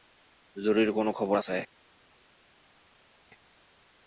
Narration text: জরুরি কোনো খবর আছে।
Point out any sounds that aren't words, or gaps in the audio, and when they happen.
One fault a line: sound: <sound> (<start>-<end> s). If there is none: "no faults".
no faults